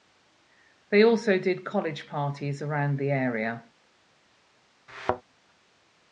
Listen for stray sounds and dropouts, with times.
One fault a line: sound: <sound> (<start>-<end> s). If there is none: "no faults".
sound: thud (4.9-5.2 s)